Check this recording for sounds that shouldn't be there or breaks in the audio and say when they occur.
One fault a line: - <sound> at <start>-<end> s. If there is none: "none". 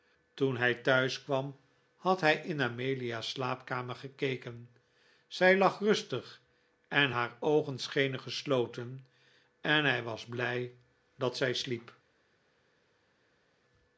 none